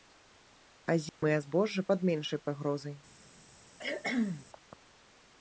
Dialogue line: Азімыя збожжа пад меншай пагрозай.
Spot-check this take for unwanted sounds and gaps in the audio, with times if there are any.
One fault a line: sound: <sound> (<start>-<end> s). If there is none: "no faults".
sound: dropout (1.1-1.2 s)
sound: cough (3.8-4.5 s)